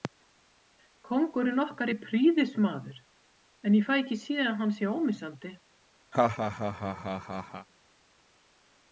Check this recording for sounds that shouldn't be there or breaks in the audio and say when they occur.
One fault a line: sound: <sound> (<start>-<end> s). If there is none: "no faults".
sound: laugh (6.1-7.7 s)